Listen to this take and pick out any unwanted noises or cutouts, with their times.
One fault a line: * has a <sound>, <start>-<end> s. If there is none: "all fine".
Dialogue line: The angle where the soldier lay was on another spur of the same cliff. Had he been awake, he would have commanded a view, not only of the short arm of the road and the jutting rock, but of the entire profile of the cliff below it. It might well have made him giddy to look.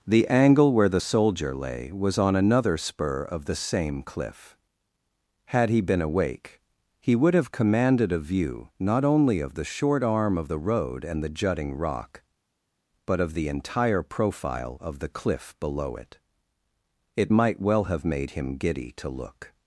all fine